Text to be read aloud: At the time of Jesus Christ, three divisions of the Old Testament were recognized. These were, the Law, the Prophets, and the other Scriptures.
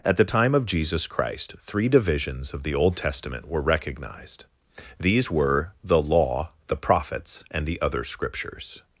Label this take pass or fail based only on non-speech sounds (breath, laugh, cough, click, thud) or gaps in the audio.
pass